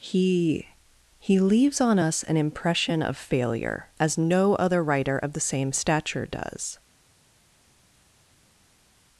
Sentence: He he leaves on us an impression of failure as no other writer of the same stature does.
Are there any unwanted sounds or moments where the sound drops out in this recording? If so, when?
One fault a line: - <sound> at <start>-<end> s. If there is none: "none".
none